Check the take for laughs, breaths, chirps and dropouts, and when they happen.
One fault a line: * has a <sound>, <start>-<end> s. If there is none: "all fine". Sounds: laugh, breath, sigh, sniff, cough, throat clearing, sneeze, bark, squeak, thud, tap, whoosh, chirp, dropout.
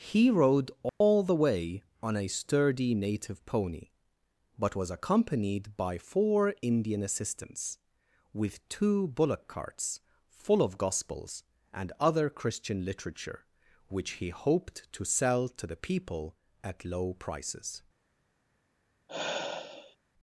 * has a dropout, 0.9-1.0 s
* has a sigh, 19.1-20.0 s